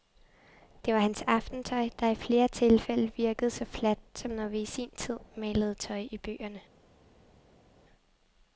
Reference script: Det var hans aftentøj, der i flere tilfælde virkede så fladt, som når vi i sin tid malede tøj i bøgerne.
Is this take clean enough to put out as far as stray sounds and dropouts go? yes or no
yes